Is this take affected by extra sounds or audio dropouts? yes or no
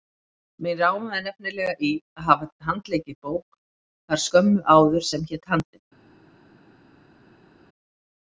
no